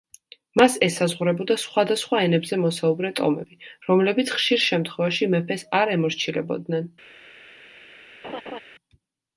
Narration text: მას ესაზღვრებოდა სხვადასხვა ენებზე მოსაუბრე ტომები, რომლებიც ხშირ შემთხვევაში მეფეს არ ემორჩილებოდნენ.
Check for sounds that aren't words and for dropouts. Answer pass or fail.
fail